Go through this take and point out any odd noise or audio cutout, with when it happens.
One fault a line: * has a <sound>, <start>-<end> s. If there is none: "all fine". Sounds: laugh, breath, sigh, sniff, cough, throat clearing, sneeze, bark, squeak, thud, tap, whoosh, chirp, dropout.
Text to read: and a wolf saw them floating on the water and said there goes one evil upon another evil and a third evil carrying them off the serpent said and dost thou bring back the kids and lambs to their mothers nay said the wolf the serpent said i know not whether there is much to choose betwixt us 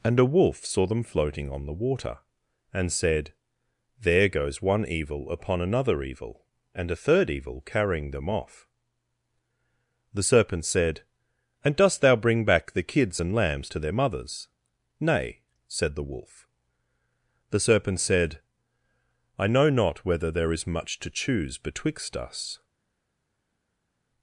all fine